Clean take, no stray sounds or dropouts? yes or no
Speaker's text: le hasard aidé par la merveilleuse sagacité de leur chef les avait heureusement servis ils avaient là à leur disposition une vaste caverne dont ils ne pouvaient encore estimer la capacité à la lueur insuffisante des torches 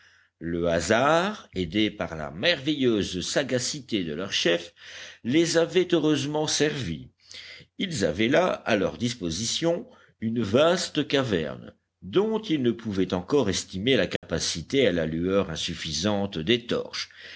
no